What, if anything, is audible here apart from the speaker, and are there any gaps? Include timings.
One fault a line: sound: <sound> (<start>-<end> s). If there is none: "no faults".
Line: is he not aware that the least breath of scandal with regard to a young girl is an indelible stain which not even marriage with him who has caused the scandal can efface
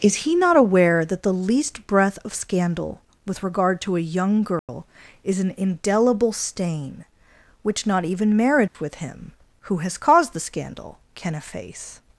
sound: dropout (4.6-4.7 s)
sound: dropout (8.7-8.7 s)